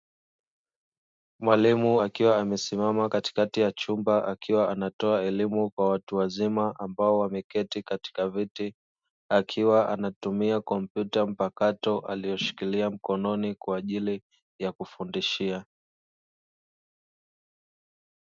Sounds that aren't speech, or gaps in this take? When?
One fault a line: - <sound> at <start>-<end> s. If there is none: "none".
none